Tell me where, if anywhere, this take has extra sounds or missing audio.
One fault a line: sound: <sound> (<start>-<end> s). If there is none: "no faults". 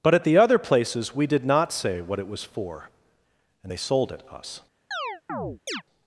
sound: chirp (4.9-5.8 s)